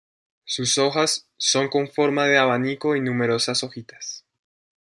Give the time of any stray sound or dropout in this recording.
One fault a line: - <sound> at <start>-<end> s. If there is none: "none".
none